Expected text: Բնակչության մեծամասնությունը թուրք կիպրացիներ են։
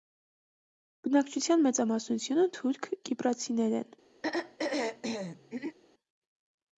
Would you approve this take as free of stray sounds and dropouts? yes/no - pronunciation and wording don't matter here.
no